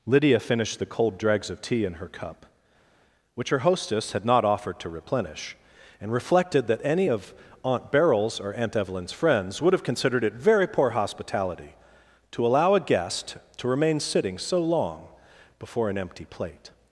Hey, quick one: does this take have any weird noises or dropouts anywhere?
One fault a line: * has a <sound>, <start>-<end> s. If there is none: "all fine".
all fine